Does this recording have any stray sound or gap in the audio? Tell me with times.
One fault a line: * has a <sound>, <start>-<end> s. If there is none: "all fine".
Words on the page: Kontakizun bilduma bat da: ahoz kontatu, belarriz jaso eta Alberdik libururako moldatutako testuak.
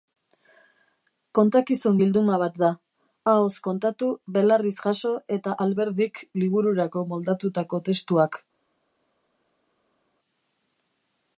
all fine